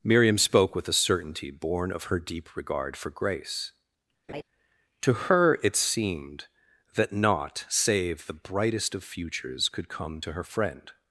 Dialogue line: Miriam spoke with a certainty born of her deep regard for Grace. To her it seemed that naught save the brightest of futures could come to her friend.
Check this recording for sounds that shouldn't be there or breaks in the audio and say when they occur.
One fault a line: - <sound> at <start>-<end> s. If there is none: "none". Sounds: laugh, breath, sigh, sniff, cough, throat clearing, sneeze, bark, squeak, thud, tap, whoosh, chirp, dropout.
- laugh at 4.3-4.4 s